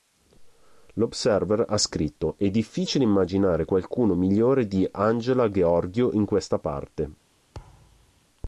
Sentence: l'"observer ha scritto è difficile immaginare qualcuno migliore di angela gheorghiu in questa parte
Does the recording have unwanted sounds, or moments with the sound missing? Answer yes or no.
yes